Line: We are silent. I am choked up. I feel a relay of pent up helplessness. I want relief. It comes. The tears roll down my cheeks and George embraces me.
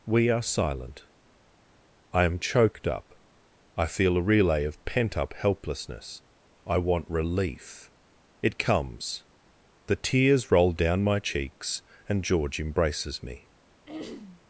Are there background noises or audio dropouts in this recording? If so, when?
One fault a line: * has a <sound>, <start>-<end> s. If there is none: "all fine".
* has a throat clearing, 13.9-14.4 s